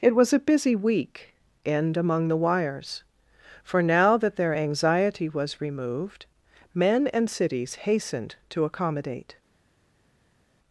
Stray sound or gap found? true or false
false